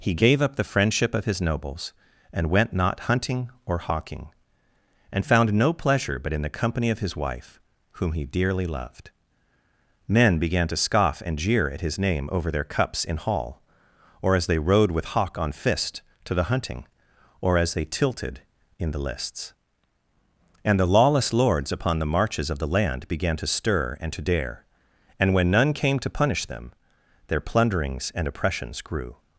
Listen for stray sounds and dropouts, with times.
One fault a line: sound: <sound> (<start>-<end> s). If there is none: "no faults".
no faults